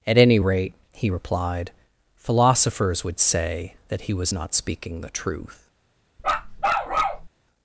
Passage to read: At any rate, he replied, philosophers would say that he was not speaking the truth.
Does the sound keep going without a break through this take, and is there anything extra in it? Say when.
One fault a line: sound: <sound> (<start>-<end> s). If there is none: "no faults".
sound: bark (6.2-7.3 s)